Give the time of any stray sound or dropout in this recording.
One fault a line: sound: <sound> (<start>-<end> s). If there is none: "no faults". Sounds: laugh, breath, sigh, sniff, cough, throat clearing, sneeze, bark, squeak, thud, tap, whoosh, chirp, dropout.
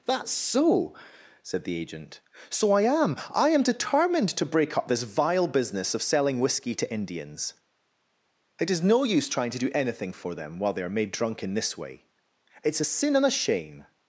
no faults